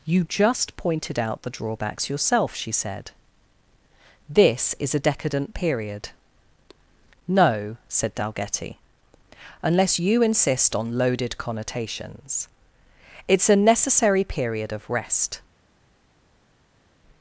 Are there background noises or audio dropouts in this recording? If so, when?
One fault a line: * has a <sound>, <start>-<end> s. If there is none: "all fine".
all fine